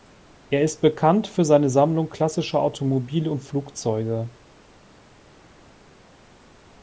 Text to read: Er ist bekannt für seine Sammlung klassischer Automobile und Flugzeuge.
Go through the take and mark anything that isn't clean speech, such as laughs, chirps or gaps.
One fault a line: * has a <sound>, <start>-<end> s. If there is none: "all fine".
all fine